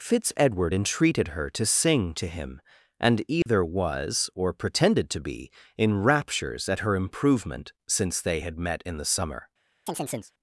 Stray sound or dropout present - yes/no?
yes